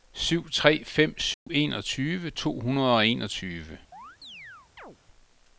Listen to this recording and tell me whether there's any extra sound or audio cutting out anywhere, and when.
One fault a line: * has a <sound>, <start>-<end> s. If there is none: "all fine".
* has a dropout, 1.3-1.5 s
* has a chirp, 3.9-5.0 s